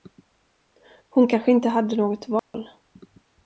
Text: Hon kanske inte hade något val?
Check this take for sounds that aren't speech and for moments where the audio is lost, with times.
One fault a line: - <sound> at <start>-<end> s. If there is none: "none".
- dropout at 2.4-2.5 s